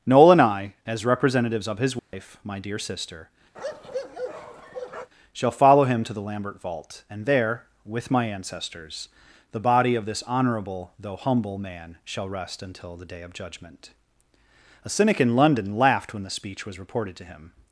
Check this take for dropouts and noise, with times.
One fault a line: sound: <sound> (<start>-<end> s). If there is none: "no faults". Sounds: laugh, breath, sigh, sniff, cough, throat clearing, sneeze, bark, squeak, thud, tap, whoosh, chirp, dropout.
sound: dropout (2.0-2.1 s)
sound: bark (3.5-5.1 s)